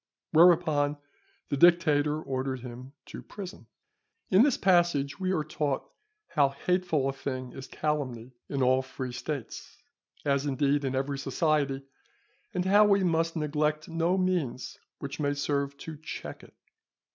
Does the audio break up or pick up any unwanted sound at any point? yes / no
no